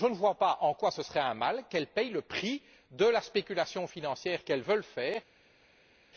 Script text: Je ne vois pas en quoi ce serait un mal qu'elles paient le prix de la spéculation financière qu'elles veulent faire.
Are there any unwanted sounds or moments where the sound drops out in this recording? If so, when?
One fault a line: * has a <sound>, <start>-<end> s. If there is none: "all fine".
all fine